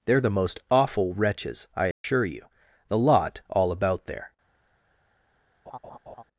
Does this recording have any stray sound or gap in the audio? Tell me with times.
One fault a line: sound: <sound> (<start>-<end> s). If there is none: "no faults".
sound: dropout (1.9-2.0 s)
sound: laugh (5.7-6.2 s)